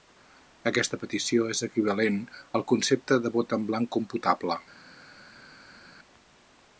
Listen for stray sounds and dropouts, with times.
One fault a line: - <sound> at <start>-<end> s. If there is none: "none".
none